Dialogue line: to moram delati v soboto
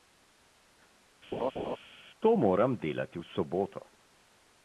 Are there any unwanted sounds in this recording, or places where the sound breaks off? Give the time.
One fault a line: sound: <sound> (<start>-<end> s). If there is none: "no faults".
sound: laugh (1.3-1.8 s)